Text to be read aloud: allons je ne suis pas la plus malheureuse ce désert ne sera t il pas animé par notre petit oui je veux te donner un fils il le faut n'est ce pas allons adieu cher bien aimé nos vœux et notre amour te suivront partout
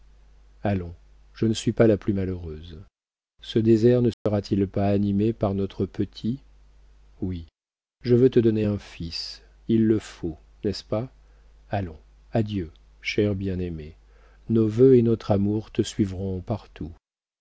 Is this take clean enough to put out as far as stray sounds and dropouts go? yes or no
no